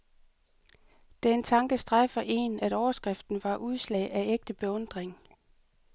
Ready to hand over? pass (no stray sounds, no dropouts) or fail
pass